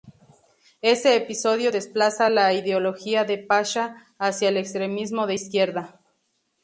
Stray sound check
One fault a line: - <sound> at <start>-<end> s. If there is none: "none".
none